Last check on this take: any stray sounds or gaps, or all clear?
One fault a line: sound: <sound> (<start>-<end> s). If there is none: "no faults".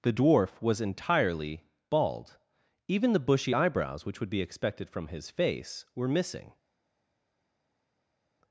no faults